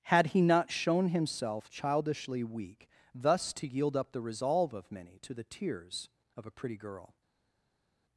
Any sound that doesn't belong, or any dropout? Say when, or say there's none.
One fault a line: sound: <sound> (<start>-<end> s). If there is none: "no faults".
no faults